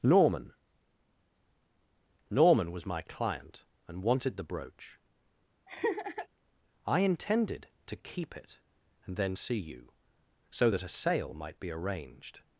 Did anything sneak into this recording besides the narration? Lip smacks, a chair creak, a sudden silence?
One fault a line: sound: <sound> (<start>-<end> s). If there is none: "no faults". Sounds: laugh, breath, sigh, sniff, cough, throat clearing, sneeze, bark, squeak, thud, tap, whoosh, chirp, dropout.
sound: laugh (5.7-6.3 s)